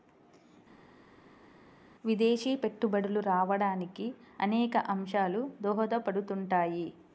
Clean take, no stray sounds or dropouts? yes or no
yes